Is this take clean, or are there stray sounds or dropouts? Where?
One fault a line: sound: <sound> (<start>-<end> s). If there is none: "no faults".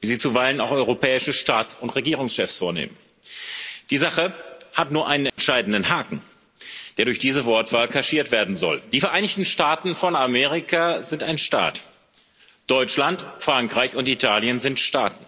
sound: dropout (5.3-5.4 s)